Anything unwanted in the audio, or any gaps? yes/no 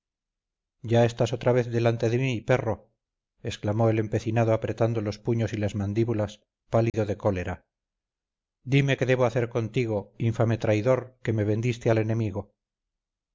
yes